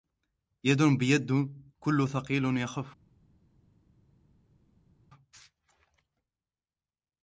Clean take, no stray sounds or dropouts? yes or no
yes